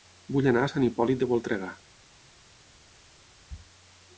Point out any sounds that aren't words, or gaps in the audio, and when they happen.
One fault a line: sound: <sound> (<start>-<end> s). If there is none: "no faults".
no faults